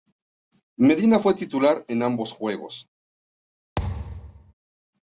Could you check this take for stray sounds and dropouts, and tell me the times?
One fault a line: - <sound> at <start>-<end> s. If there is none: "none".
- thud at 3.8-4.5 s